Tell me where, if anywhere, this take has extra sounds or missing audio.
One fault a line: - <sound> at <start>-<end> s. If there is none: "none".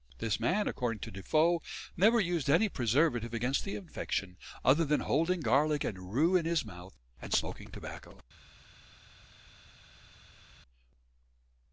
none